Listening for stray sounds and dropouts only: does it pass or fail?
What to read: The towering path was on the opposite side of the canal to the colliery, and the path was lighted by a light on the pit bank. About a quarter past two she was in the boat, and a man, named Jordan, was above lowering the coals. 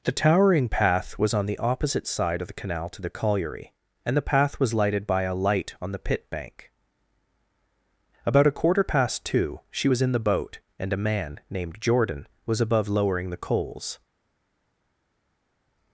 pass